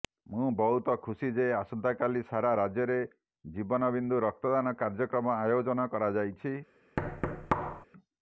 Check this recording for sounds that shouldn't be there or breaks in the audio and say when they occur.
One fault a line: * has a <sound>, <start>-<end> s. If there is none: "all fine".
* has a thud, 7.0-7.9 s